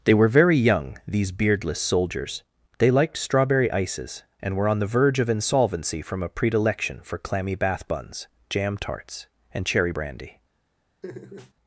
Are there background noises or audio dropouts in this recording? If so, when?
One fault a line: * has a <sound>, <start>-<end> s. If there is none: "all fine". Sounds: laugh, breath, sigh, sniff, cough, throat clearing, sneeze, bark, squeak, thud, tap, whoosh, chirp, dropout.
* has a laugh, 11.0-11.5 s